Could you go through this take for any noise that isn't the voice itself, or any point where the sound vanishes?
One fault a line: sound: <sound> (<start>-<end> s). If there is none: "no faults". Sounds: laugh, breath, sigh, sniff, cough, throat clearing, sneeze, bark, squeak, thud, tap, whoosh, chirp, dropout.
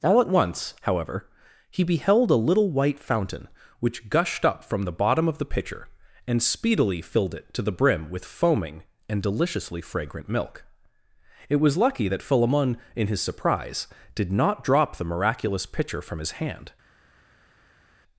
no faults